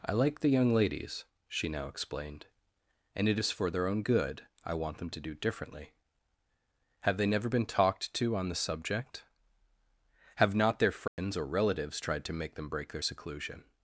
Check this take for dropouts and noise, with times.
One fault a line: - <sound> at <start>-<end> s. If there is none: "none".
- dropout at 11.1-11.2 s